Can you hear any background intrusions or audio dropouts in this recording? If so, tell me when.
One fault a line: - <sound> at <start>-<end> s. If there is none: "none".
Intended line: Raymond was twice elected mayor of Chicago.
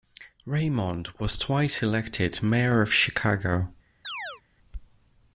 - chirp at 4.0-4.4 s